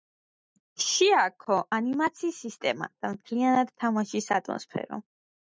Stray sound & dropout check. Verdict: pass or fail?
pass